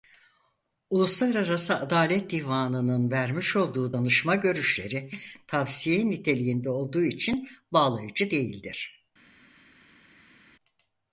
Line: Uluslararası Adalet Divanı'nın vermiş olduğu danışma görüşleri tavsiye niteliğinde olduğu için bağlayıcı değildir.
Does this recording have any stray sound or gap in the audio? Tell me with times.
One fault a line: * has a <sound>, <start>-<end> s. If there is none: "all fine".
all fine